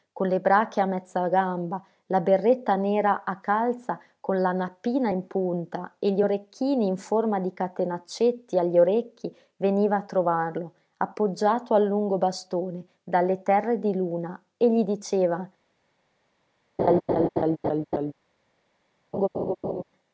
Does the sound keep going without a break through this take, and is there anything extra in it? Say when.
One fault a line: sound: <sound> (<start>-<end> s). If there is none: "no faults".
sound: laugh (16.8-18.1 s)
sound: laugh (19.1-19.8 s)